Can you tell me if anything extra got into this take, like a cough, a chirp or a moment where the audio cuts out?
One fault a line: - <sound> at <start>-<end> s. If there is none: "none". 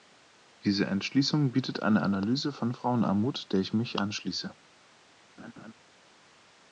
- laugh at 5.4-5.7 s